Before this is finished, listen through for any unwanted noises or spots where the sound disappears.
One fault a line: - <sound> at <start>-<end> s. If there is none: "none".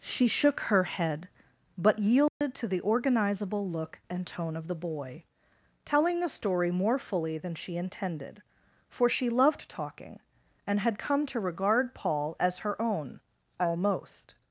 - dropout at 2.3-2.4 s